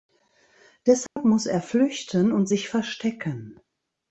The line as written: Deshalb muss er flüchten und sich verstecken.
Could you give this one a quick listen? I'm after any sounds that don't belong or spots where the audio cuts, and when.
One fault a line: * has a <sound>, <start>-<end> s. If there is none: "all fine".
* has a dropout, 1.1-1.2 s